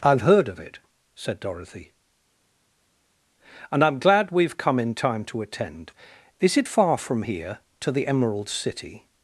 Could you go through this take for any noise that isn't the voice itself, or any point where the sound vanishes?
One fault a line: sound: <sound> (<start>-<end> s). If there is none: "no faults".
no faults